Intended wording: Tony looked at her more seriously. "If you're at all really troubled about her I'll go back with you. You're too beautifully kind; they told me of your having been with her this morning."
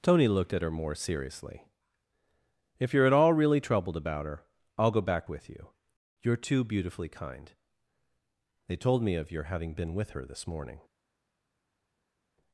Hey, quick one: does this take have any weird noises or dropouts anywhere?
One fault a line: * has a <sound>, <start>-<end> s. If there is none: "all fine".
all fine